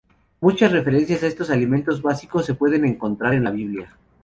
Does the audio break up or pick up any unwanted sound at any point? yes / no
no